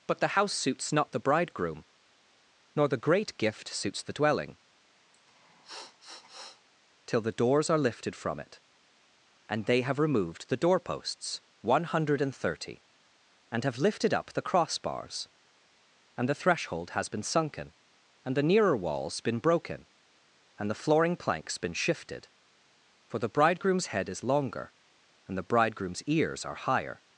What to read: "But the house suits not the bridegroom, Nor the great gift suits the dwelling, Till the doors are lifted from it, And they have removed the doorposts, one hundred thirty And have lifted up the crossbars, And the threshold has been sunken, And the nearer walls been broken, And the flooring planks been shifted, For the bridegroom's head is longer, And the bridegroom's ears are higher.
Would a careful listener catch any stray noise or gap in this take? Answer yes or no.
yes